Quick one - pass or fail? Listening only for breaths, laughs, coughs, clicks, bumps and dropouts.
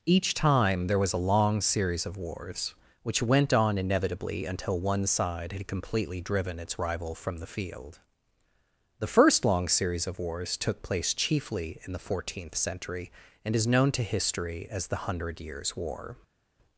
pass